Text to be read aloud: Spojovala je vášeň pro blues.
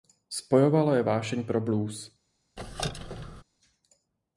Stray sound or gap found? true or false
true